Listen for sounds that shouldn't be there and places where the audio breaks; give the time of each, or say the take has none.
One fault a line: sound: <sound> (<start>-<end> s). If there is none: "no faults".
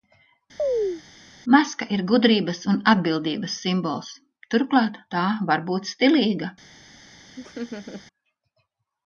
sound: chirp (0.6-1.0 s)
sound: laugh (7.4-8.0 s)